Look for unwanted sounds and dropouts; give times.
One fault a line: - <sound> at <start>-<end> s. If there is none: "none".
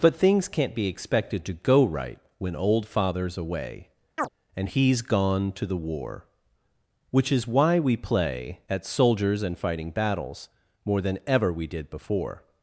- chirp at 4.2-4.3 s